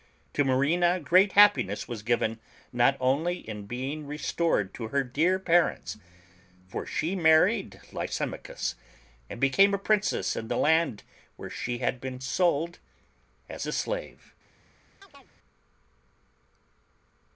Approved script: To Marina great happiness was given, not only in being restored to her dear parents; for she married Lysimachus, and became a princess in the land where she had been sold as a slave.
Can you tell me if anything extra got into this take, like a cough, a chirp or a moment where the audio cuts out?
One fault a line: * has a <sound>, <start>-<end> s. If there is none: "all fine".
* has a chirp, 15.0-15.4 s